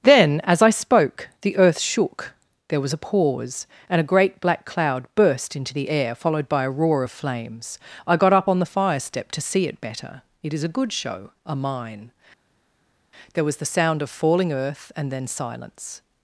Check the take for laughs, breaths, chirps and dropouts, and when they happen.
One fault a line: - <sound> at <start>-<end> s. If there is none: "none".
none